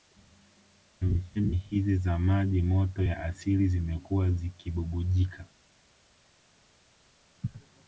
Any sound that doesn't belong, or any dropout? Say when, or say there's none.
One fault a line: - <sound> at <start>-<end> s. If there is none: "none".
none